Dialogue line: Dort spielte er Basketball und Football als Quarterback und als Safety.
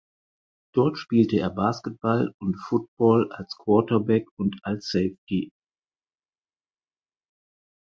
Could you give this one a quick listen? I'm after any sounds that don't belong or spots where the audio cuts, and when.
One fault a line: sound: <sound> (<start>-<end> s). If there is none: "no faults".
no faults